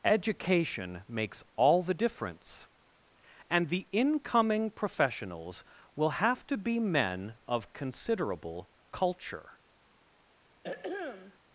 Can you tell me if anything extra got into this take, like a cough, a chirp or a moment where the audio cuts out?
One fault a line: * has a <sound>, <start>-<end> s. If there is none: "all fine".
* has a throat clearing, 10.6-11.4 s